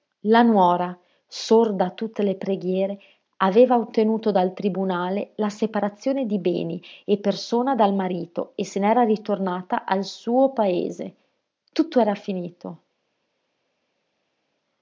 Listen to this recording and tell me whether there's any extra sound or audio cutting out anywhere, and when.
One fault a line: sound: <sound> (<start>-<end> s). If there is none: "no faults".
no faults